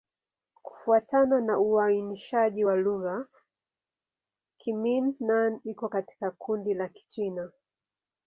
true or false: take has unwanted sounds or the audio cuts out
false